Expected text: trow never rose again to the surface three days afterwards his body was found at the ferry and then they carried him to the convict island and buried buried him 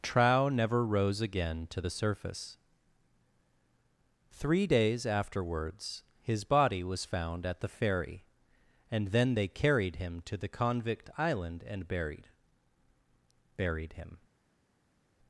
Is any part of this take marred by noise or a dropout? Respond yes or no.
no